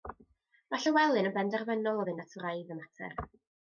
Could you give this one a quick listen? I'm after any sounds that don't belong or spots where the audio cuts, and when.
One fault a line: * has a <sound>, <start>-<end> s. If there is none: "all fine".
all fine